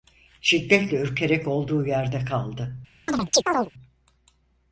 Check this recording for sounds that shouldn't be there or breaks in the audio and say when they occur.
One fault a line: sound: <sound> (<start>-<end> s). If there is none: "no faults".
sound: chirp (3.1-3.7 s)